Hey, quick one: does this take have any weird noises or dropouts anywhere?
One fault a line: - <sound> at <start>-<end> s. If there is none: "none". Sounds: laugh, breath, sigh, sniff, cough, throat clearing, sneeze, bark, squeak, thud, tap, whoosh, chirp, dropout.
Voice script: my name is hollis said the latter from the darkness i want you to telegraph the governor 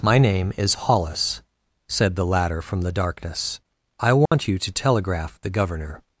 - dropout at 4.3-4.3 s